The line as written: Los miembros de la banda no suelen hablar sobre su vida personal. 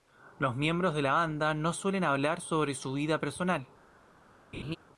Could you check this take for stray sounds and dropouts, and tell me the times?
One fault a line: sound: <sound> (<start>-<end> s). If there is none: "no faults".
sound: laugh (4.5-4.8 s)